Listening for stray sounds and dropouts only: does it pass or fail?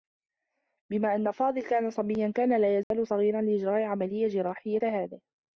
fail